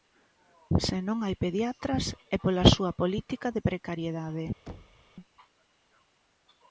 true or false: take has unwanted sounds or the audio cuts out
true